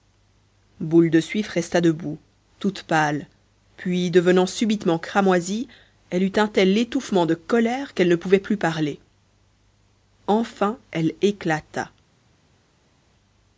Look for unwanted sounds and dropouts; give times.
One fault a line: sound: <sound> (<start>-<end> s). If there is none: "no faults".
no faults